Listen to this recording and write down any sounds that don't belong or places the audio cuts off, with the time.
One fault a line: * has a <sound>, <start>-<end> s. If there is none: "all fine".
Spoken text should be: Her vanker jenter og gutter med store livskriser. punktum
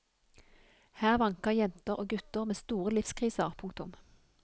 all fine